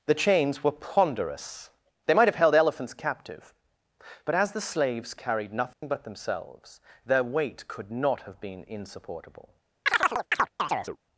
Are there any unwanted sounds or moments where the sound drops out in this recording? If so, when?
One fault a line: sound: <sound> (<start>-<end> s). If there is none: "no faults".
sound: dropout (5.7-5.8 s)
sound: chirp (9.9-11.0 s)